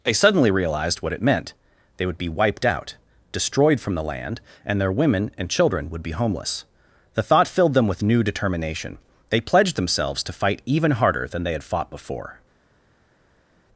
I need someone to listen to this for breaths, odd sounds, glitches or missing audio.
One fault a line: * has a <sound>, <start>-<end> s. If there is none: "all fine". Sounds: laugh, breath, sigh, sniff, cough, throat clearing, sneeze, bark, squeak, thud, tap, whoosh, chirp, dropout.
all fine